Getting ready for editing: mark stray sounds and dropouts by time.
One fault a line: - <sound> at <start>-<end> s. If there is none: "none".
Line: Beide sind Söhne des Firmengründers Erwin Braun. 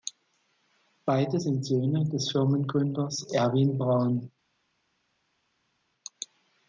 none